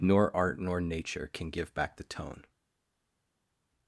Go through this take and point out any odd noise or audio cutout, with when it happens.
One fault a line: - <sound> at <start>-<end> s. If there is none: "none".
none